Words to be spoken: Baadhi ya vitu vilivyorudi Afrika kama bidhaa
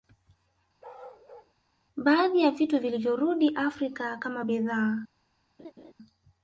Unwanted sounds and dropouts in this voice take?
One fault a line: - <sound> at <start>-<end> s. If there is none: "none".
- bark at 0.8-1.5 s
- laugh at 5.6-5.9 s